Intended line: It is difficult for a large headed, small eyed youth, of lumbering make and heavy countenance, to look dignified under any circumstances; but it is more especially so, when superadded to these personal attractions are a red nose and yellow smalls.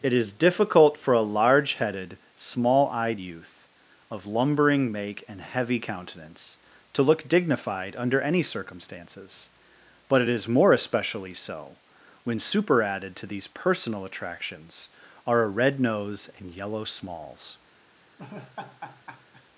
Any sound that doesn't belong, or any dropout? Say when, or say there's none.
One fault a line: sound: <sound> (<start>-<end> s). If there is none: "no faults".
sound: laugh (18.2-19.4 s)